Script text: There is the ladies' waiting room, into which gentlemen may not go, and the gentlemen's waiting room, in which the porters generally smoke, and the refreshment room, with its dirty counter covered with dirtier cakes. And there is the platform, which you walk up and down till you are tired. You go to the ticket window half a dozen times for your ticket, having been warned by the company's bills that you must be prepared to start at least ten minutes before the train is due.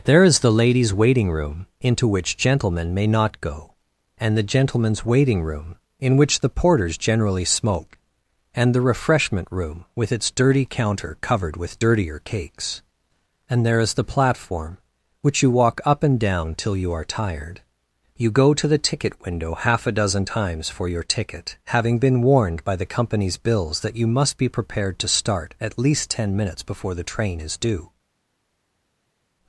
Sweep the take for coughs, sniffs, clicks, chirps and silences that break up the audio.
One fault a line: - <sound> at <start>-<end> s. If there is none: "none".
none